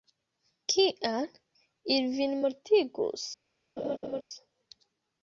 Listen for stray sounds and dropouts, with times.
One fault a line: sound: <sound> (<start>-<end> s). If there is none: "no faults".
sound: laugh (3.8-4.2 s)